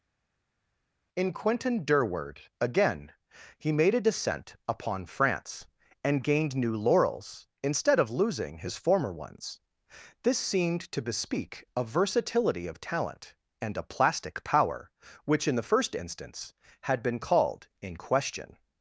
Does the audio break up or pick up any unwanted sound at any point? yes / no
no